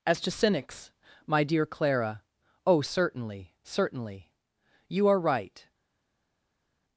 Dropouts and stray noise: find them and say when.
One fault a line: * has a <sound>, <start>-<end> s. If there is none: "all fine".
all fine